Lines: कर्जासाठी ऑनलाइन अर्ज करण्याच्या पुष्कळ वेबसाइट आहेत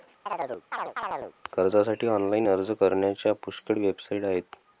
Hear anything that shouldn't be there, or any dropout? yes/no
yes